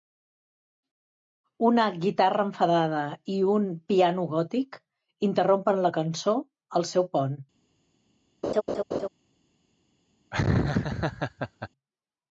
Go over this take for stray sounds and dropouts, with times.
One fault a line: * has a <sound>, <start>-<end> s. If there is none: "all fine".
* has a laugh, 8.4-9.1 s
* has a laugh, 10.3-11.7 s